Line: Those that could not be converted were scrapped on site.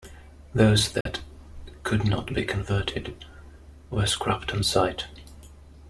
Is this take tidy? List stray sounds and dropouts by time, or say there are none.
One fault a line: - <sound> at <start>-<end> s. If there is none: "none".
- dropout at 1.0-1.1 s